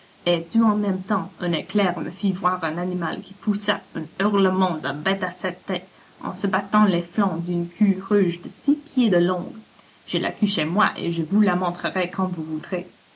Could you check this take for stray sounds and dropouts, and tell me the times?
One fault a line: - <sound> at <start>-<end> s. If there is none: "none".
none